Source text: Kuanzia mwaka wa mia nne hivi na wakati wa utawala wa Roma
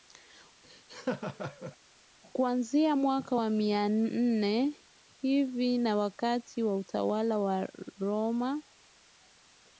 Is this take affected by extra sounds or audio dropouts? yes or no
yes